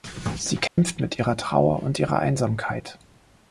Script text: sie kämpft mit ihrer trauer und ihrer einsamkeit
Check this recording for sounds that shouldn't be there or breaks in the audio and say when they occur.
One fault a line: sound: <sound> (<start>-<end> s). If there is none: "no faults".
sound: dropout (0.7-0.8 s)